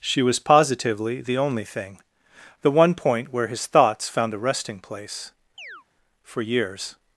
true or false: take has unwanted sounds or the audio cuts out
true